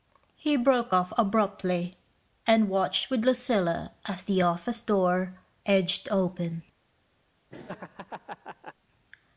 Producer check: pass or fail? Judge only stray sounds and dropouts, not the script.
fail